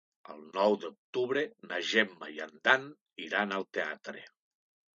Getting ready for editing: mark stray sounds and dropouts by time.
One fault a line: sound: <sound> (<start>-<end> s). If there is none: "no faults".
no faults